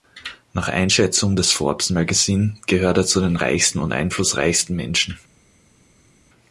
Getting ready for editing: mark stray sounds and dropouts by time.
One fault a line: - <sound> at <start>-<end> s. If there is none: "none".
none